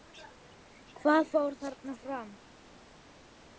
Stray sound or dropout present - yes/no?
no